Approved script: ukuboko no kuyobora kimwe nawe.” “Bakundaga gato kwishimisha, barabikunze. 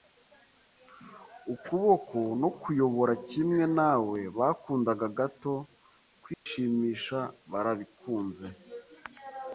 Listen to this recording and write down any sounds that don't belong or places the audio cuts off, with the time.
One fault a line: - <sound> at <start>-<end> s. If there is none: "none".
- dropout at 6.3-6.5 s